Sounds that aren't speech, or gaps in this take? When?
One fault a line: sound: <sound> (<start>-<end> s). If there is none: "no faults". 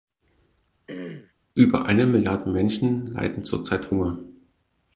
sound: throat clearing (0.9-1.3 s)